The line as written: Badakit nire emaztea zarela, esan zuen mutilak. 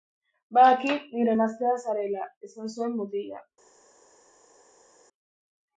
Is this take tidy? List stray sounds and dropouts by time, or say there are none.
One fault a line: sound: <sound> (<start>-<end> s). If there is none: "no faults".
no faults